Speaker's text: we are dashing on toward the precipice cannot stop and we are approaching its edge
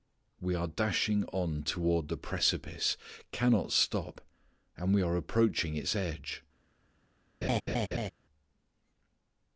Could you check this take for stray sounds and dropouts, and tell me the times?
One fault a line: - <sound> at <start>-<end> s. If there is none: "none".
- laugh at 7.4-8.1 s